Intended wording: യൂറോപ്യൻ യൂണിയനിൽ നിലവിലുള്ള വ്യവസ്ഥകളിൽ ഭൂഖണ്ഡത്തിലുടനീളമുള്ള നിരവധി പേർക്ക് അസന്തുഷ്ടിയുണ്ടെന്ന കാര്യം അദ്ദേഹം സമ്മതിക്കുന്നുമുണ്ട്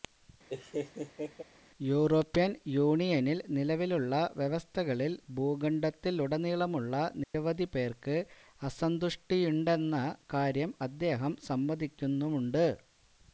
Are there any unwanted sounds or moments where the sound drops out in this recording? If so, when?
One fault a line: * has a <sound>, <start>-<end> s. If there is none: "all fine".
* has a laugh, 0.5-1.4 s
* has a dropout, 7.2-7.3 s